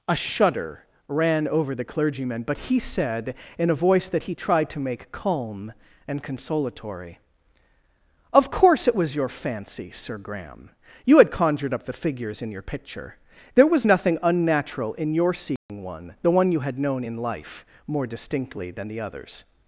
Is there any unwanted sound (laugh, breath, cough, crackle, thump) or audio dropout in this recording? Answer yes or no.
yes